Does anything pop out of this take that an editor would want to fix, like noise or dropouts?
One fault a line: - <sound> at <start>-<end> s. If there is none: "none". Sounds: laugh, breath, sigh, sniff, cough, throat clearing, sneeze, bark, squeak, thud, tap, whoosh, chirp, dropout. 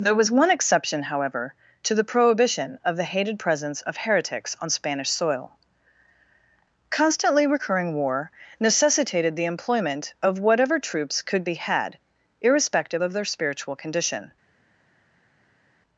none